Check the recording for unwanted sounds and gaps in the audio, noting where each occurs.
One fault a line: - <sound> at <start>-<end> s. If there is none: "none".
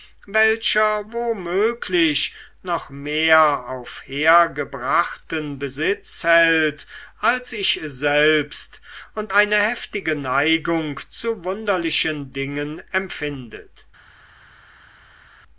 none